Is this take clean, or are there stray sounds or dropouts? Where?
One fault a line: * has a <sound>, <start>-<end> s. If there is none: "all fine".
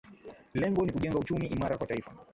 all fine